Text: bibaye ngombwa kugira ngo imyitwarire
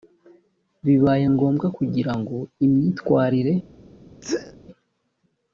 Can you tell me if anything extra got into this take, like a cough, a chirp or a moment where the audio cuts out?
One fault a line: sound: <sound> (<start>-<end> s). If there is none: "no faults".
sound: sneeze (4.2-4.6 s)